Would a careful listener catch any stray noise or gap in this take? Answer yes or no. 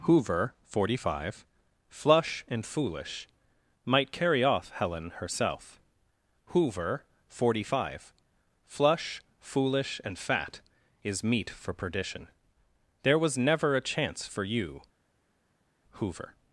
no